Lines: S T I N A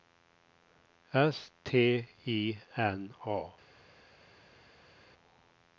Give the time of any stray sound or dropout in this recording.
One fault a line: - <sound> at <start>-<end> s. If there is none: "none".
none